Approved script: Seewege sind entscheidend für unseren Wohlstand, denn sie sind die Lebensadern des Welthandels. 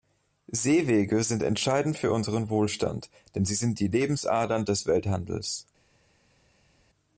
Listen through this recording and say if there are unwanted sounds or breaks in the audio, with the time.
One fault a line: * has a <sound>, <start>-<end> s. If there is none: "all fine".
all fine